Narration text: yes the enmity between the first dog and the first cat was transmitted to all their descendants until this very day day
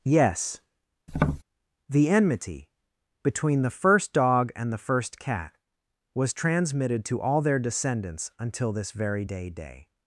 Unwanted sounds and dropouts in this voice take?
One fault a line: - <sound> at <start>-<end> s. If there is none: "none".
- tap at 1.1-1.4 s